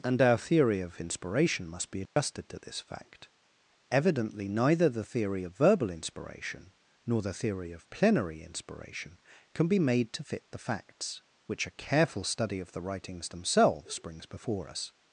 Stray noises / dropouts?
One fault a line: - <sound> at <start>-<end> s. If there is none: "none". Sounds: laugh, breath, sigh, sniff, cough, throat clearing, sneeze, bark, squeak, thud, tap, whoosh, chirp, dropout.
- dropout at 2.1-2.2 s